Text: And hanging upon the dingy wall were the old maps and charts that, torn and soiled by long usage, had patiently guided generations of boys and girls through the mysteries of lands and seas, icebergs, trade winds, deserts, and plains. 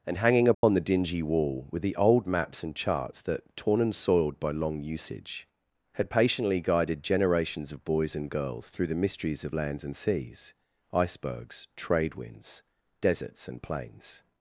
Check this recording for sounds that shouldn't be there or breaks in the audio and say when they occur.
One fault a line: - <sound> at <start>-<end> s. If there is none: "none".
- dropout at 0.5-0.6 s